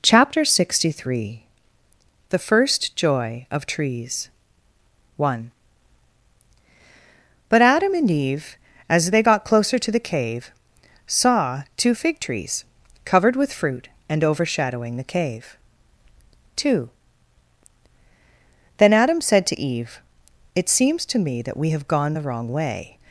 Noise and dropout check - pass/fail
pass